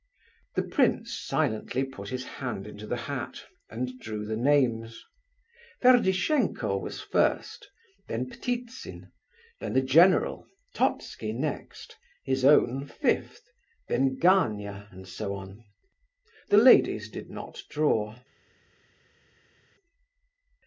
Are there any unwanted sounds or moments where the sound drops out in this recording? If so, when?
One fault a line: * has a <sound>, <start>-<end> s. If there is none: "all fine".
all fine